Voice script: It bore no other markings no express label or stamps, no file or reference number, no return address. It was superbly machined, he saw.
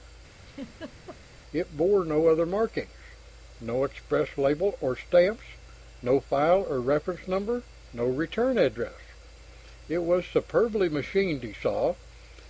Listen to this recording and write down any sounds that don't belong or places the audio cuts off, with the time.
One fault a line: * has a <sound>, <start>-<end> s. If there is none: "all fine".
* has a laugh, 0.5-1.2 s